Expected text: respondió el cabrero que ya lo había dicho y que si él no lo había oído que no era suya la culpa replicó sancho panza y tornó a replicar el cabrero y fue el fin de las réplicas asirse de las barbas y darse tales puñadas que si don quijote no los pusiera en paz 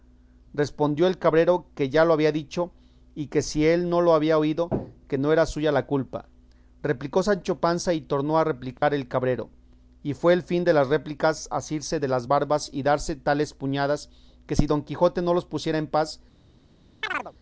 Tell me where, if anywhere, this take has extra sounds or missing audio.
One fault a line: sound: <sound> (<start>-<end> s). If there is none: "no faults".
sound: dropout (8.8-8.8 s)
sound: chirp (17.0-17.3 s)